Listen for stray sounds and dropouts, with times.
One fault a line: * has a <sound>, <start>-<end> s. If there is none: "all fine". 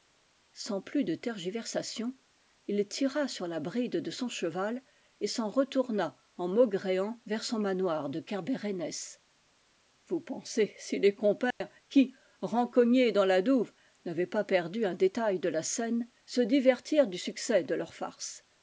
* has a dropout, 11.5-11.6 s